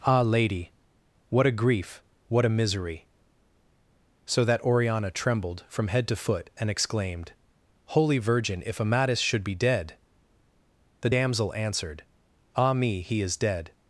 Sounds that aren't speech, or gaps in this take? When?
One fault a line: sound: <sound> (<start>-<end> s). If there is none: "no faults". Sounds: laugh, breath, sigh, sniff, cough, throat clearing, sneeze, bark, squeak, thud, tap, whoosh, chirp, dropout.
no faults